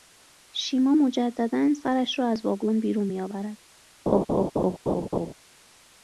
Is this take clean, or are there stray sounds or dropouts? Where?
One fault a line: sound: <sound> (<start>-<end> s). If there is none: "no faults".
sound: laugh (4.1-5.3 s)